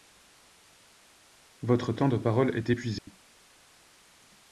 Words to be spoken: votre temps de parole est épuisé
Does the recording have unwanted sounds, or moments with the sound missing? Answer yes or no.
yes